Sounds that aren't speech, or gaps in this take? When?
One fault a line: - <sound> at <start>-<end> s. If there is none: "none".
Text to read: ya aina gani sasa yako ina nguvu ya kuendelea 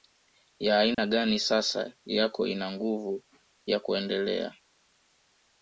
- dropout at 0.9-1.0 s